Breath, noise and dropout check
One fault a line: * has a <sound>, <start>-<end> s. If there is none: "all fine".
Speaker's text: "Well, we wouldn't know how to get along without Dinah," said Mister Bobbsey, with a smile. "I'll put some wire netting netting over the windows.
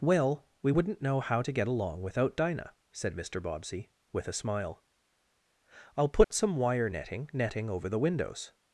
* has a dropout, 6.2-6.3 s